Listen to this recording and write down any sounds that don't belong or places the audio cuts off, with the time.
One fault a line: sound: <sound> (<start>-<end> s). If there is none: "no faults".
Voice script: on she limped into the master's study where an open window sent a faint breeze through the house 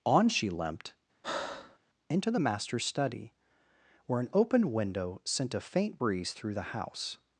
sound: breath (1.2-1.8 s)